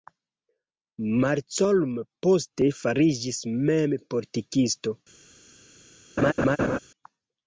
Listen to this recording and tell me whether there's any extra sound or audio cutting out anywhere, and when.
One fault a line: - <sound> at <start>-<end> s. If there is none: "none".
- laugh at 6.2-6.8 s